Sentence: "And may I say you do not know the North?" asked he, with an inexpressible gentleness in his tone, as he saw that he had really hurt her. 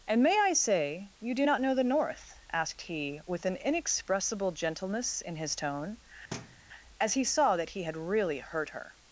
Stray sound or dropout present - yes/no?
yes